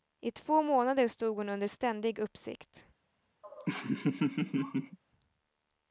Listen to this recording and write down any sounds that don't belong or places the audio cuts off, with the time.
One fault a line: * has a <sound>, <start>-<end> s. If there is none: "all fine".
* has a laugh, 3.4-5.0 s